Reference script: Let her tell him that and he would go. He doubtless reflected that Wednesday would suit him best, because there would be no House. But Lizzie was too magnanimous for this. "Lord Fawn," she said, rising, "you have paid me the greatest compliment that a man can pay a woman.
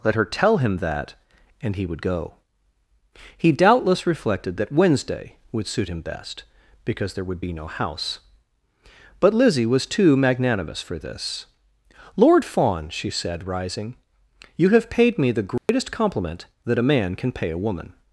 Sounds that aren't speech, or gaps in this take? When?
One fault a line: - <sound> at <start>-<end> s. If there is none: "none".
- dropout at 15.6-15.7 s